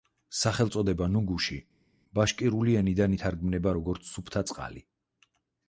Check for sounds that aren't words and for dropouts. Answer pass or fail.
pass